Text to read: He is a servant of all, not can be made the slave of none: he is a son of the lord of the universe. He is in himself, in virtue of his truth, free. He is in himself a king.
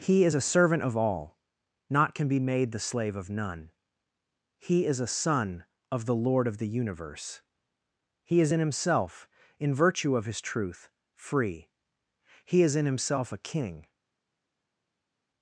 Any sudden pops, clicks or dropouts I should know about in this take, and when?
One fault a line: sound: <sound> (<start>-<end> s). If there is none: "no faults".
no faults